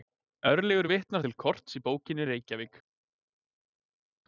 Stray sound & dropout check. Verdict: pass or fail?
pass